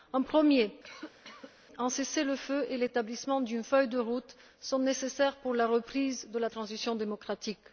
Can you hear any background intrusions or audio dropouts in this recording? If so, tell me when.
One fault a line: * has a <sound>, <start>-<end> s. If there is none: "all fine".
* has a cough, 0.8-1.5 s